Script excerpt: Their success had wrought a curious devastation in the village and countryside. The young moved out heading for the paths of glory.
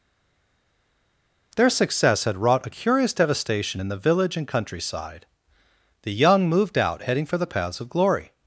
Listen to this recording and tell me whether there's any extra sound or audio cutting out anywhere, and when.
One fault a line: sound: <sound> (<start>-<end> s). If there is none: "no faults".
no faults